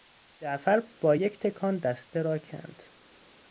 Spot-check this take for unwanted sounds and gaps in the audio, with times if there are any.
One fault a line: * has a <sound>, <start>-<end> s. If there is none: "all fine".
all fine